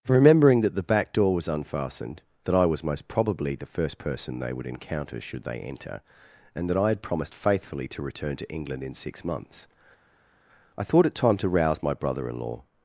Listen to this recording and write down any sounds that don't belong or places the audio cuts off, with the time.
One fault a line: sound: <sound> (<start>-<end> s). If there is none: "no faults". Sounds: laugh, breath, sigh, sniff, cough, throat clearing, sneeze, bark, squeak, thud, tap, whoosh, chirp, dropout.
no faults